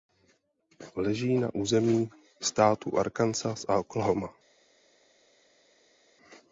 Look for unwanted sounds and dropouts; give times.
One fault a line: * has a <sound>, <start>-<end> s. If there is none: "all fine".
all fine